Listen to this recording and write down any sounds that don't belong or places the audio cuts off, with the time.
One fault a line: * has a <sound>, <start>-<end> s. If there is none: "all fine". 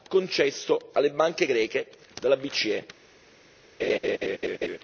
* has a laugh, 3.8-4.8 s